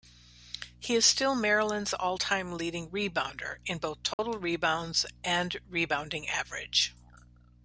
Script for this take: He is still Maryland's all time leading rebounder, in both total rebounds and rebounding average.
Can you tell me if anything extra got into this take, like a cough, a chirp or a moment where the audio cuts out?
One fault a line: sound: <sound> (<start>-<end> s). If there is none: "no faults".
sound: dropout (4.1-4.2 s)